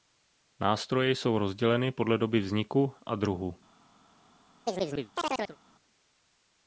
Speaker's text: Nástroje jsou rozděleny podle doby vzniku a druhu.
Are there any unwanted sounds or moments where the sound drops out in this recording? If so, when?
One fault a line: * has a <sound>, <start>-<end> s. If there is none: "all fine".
* has a chirp, 4.7-5.6 s